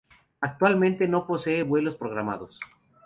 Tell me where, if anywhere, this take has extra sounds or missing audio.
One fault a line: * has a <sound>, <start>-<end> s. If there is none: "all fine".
all fine